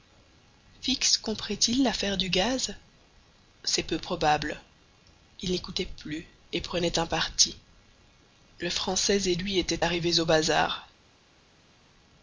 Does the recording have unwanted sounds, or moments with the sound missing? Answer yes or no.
no